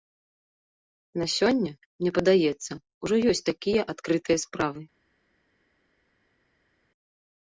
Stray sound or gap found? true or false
false